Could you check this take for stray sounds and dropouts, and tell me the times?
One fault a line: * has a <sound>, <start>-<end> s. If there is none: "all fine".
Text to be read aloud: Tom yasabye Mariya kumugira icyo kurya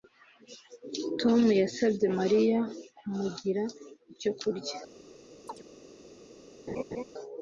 * has a chirp, 5.5-5.6 s
* has a laugh, 6.7-7.0 s